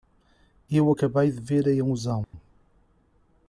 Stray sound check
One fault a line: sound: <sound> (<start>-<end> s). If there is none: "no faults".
sound: dropout (2.2-2.3 s)